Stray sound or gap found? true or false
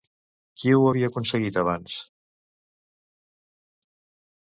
false